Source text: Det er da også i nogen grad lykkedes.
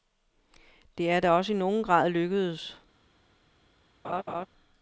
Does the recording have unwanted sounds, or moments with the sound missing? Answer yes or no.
yes